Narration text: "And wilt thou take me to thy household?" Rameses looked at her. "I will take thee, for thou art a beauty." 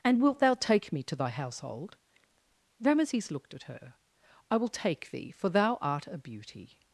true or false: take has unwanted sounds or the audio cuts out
false